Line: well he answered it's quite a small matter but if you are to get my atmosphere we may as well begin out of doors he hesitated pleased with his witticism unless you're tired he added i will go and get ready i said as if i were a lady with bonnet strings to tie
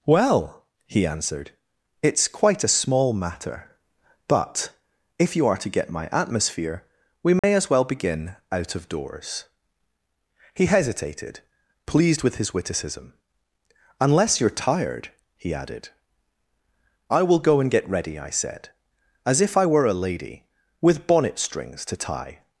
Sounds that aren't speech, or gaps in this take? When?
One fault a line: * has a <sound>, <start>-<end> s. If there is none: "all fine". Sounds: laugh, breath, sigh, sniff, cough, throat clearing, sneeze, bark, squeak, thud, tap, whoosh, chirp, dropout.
* has a dropout, 7.4-7.4 s